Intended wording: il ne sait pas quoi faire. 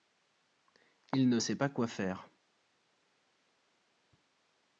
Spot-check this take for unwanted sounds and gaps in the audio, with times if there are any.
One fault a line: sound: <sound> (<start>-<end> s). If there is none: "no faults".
no faults